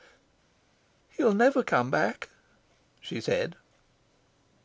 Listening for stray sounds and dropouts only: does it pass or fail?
pass